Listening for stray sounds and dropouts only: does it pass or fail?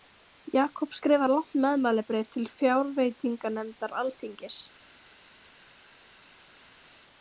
pass